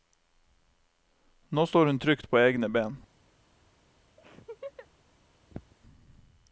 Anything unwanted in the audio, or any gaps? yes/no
yes